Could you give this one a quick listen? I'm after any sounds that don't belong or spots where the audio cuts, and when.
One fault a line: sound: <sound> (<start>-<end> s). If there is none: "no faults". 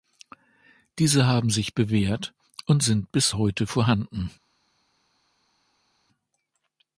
no faults